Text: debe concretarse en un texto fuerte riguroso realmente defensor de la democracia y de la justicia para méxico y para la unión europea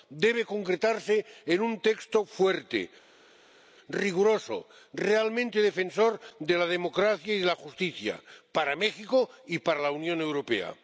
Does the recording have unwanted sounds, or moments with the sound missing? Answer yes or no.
no